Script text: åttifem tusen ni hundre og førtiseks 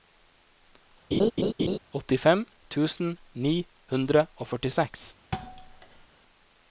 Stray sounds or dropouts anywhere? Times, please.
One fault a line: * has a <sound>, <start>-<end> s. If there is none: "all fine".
* has a laugh, 1.1-1.8 s
* has a thud, 5.3-6.1 s